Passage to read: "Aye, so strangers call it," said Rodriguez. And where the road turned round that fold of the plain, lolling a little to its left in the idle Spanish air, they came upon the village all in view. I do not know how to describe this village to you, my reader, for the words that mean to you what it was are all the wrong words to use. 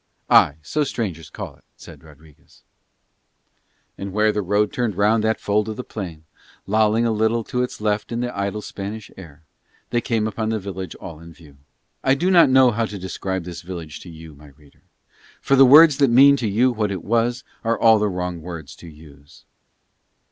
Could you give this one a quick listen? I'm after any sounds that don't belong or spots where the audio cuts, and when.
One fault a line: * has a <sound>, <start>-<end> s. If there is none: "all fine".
all fine